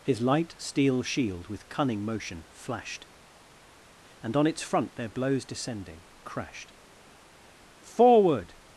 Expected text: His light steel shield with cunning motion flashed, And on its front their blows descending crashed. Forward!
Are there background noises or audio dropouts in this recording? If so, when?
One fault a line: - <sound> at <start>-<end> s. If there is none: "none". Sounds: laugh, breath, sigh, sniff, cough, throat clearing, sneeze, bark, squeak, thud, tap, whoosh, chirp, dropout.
none